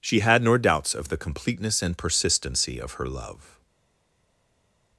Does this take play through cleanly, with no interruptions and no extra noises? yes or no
yes